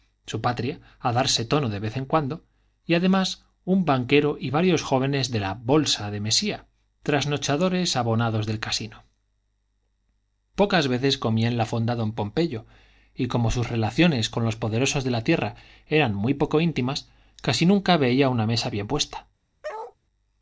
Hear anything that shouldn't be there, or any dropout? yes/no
yes